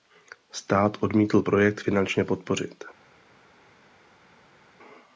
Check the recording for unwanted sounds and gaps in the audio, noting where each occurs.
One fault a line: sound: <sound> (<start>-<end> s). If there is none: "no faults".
no faults